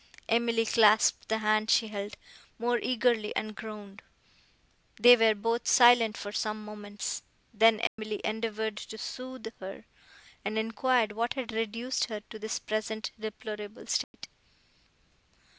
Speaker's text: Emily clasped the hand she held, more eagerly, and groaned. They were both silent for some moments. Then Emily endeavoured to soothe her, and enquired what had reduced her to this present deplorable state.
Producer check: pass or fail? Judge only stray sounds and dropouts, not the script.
fail